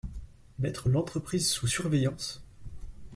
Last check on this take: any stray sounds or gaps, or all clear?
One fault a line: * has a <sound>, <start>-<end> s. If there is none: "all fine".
all fine